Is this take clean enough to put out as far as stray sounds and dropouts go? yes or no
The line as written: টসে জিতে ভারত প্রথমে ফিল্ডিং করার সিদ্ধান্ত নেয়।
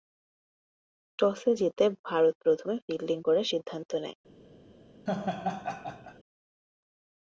no